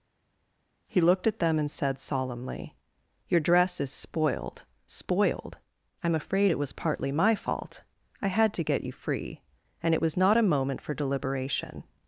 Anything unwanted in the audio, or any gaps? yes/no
no